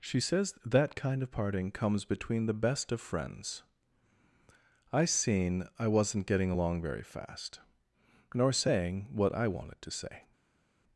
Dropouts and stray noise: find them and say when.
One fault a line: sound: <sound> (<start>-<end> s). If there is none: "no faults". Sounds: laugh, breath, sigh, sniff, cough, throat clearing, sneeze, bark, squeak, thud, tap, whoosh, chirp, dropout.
no faults